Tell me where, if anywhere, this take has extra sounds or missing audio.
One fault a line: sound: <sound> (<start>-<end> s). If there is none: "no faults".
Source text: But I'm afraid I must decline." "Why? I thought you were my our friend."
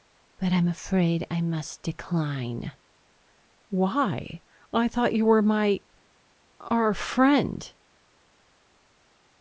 no faults